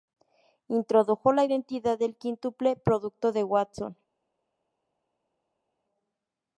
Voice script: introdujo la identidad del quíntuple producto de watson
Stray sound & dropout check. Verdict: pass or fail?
pass